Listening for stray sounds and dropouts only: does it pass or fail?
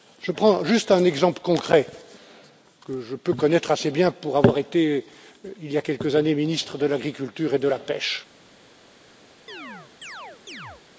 fail